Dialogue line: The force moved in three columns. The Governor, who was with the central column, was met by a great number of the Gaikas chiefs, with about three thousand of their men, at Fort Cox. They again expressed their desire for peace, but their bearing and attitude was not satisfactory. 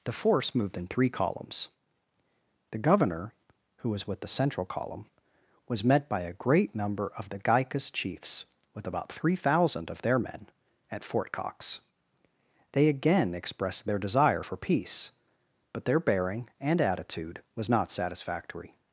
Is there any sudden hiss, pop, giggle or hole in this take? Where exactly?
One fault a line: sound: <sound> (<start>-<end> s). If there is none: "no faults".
no faults